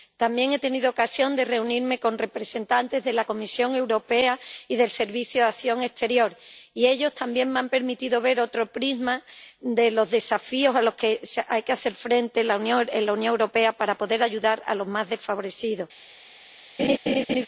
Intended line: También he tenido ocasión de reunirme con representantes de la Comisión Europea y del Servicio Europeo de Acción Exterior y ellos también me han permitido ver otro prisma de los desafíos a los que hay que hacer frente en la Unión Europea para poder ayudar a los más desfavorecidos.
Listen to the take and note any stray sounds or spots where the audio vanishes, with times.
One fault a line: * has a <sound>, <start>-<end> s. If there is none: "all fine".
* has a laugh, 16.8-17.5 s